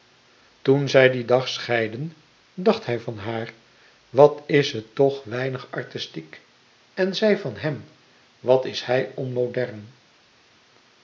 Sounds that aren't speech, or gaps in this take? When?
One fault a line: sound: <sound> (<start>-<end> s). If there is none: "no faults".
no faults